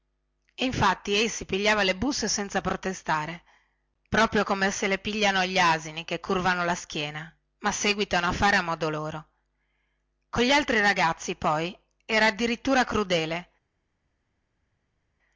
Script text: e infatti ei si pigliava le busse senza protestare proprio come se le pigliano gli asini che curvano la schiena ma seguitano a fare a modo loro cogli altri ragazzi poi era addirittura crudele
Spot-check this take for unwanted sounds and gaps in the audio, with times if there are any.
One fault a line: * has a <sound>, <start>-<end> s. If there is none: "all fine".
all fine